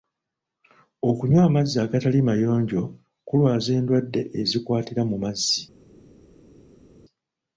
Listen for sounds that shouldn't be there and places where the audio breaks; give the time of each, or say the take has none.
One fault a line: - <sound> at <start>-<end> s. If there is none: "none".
none